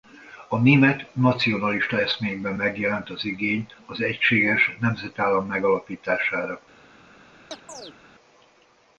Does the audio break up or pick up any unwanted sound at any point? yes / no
yes